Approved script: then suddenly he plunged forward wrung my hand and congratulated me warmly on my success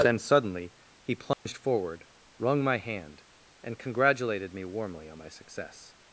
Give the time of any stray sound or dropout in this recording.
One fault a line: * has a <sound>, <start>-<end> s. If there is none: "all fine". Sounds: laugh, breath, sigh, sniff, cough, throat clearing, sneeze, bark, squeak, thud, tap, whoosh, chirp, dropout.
* has a dropout, 1.3-1.5 s